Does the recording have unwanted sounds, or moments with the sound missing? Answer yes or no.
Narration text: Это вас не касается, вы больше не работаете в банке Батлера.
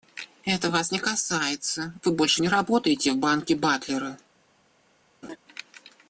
yes